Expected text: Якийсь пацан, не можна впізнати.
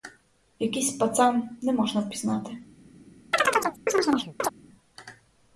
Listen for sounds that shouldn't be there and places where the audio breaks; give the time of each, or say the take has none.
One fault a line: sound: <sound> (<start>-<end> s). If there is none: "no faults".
sound: chirp (3.3-4.5 s)